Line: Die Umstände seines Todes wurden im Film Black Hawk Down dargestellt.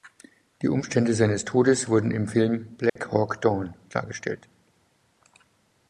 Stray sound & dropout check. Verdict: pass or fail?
fail